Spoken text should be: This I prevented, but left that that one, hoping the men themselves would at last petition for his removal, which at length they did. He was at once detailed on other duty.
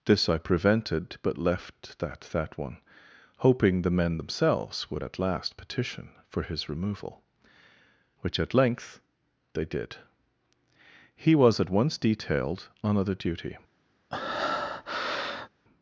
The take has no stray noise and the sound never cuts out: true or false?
false